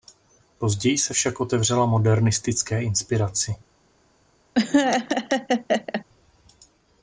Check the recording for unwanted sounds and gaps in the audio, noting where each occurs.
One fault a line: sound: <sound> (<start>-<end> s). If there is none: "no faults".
sound: laugh (4.5-6.0 s)